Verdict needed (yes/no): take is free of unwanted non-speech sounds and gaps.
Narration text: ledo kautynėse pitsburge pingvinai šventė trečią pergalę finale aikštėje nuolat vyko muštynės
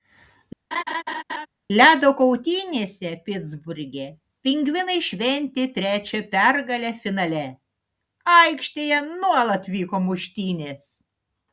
no